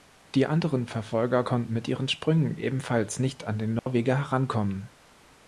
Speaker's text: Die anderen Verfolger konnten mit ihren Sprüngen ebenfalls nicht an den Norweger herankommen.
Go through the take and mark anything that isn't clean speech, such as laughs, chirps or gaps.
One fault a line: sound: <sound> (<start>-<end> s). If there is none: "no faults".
sound: dropout (3.8-3.9 s)